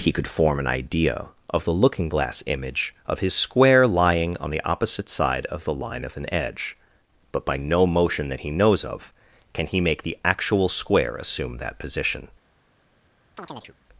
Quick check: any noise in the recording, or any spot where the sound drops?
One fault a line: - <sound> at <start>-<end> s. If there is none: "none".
- chirp at 13.4-13.8 s